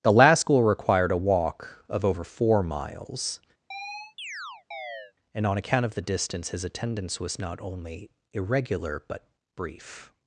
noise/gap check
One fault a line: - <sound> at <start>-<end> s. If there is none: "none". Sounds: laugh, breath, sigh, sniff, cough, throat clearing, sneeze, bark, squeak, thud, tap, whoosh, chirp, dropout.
- chirp at 3.7-5.1 s